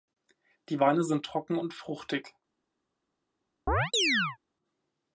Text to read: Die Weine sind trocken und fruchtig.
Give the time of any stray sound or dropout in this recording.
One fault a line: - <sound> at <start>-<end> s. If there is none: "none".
- chirp at 3.7-4.4 s